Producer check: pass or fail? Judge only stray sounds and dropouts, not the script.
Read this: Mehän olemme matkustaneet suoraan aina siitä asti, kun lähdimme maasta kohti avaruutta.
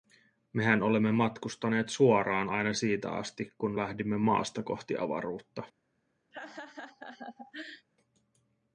fail